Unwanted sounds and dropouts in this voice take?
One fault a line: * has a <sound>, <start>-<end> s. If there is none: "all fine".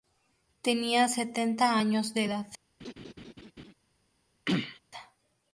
* has a laugh, 2.8-3.7 s
* has a throat clearing, 4.5-4.8 s